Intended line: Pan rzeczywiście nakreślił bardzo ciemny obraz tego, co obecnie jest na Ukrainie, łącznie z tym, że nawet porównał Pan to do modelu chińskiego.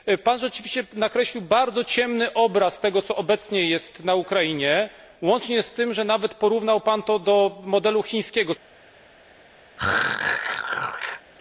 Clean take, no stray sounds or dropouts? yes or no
no